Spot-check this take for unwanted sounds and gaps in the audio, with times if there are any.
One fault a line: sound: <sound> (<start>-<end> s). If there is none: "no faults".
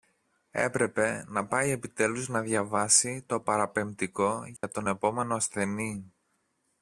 sound: dropout (4.6-4.6 s)